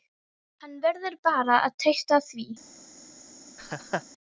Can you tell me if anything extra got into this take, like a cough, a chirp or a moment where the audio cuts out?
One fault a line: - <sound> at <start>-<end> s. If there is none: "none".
- laugh at 3.6-4.0 s